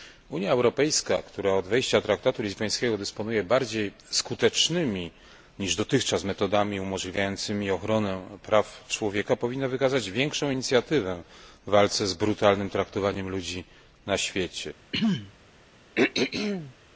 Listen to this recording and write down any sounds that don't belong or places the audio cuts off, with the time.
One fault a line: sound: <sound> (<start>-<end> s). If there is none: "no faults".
sound: throat clearing (14.9-15.3 s)
sound: throat clearing (15.9-16.7 s)